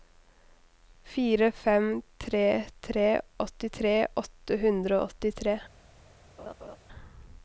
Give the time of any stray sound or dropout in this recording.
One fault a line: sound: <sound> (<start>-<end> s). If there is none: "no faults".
sound: laugh (6.4-6.8 s)